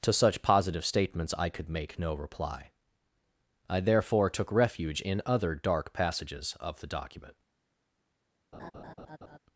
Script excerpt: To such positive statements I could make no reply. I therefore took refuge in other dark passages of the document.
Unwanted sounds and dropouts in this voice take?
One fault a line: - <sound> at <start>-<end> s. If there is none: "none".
- laugh at 8.5-9.4 s